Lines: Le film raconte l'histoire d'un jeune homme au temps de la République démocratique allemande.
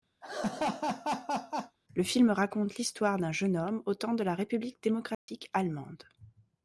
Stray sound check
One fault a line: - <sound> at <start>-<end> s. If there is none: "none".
- laugh at 0.2-1.8 s
- dropout at 5.1-5.3 s